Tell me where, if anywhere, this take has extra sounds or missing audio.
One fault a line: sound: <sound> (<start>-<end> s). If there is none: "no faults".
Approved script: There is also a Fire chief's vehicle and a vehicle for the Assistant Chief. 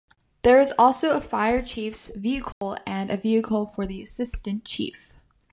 sound: dropout (2.5-2.6 s)